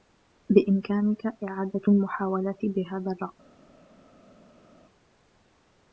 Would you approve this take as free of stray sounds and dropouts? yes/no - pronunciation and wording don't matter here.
yes